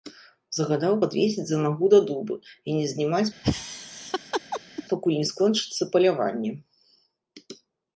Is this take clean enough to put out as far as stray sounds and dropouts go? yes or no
no